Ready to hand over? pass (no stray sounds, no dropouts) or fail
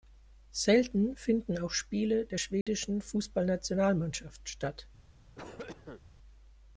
fail